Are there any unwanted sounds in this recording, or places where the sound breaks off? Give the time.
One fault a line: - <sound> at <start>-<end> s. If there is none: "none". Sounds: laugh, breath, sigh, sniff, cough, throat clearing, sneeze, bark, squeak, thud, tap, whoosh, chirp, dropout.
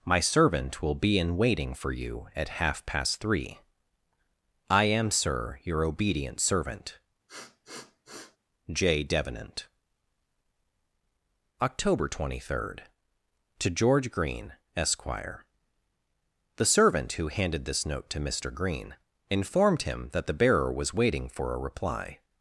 - sniff at 7.3-8.4 s